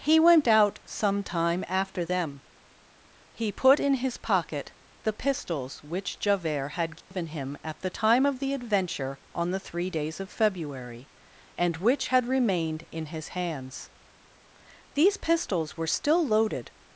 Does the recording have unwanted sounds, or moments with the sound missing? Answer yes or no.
yes